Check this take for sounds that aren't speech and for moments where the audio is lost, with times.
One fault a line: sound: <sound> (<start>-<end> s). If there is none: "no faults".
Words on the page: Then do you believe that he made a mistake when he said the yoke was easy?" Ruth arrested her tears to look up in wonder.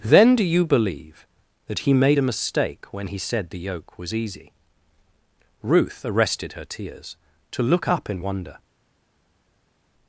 no faults